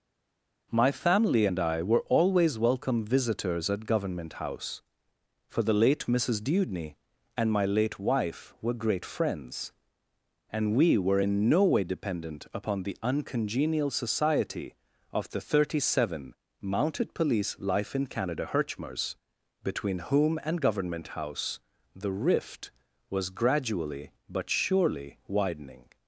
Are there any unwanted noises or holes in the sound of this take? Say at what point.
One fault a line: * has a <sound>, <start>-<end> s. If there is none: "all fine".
all fine